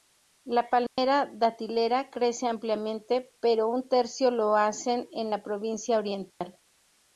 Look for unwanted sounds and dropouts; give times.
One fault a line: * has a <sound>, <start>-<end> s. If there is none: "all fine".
* has a dropout, 0.9-1.0 s
* has a dropout, 6.3-6.4 s